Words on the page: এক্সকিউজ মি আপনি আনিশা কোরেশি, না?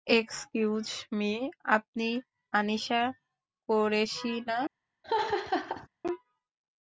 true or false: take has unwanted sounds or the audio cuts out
true